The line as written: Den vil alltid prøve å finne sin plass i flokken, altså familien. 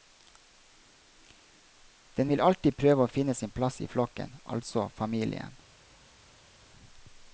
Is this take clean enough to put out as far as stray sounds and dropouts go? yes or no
yes